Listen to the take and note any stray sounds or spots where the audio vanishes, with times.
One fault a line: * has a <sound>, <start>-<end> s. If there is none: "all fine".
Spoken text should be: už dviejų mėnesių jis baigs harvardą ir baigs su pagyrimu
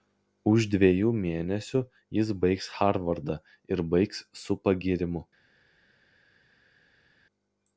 all fine